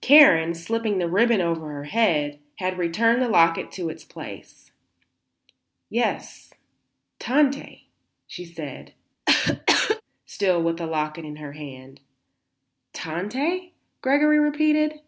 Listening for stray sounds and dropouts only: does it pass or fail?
fail